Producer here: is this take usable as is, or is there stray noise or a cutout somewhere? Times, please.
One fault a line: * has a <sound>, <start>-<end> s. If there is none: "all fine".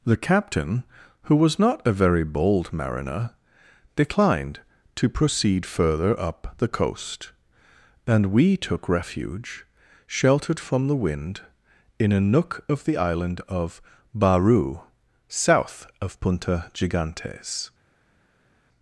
all fine